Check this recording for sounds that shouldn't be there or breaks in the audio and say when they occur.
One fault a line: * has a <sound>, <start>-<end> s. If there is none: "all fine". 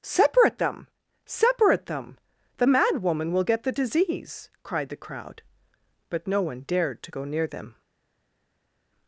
all fine